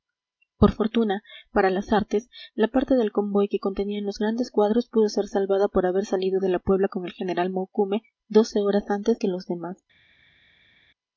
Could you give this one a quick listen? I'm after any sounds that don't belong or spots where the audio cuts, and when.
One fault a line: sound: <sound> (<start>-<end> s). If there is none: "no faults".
no faults